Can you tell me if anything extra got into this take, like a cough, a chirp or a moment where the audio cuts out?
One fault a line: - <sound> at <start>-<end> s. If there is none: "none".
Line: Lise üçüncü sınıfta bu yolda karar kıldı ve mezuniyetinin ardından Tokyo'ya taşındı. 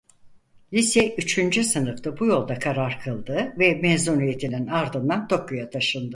none